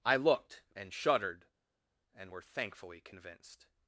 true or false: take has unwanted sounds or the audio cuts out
false